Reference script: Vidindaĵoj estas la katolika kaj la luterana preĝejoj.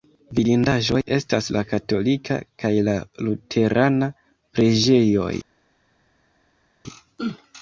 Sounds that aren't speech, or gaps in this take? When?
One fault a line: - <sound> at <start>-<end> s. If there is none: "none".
none